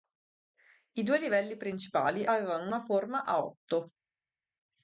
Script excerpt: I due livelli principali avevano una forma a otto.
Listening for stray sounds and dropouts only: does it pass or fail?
pass